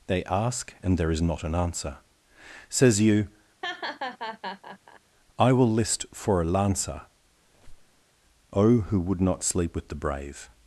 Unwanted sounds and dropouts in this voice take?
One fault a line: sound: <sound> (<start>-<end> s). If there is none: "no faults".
sound: laugh (3.6-5.0 s)
sound: squeak (7.4-8.0 s)